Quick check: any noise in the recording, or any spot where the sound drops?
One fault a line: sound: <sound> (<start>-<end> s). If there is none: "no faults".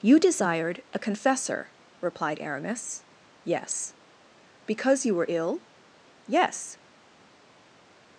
no faults